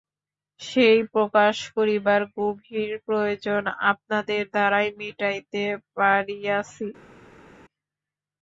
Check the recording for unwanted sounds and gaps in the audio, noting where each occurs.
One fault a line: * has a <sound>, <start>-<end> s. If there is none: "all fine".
all fine